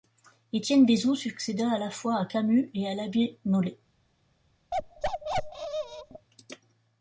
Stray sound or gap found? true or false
true